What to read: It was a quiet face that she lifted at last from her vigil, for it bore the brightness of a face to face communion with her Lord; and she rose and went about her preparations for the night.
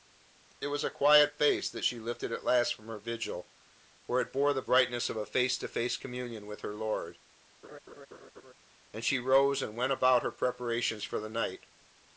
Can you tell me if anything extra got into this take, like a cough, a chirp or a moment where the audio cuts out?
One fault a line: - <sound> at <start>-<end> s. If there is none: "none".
- laugh at 7.6-8.5 s